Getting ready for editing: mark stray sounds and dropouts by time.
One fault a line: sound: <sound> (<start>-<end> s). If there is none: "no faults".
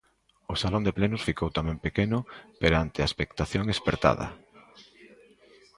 no faults